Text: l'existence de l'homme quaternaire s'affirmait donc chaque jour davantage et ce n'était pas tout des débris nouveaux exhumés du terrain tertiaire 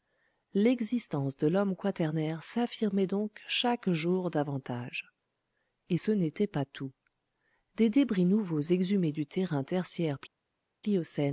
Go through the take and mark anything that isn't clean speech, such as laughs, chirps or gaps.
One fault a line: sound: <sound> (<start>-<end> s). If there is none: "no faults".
no faults